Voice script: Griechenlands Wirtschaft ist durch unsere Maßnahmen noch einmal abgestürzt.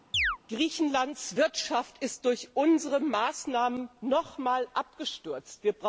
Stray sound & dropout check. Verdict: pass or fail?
fail